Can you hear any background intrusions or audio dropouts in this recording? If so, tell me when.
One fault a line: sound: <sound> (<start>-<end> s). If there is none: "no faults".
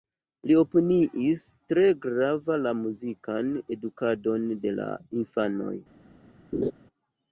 sound: laugh (6.5-6.7 s)